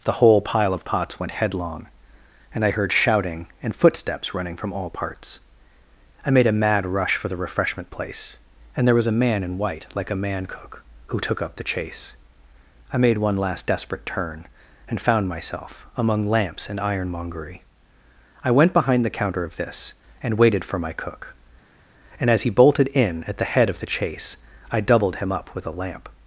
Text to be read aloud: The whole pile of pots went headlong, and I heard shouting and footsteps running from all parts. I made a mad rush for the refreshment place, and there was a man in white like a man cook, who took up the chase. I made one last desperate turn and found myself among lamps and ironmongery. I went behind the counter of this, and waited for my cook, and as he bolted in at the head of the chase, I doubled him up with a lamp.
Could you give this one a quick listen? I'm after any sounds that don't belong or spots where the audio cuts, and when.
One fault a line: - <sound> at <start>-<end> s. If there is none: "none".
none